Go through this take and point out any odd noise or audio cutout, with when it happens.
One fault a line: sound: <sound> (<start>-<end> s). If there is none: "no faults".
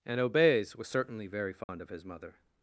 sound: dropout (1.6-1.7 s)